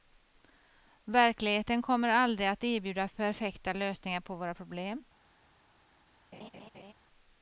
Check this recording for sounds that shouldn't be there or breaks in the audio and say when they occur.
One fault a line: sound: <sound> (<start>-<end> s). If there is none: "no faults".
sound: laugh (6.3-6.9 s)